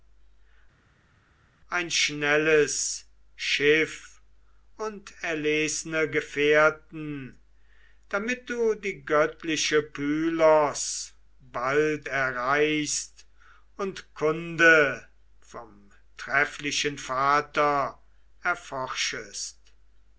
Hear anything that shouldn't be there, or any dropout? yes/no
no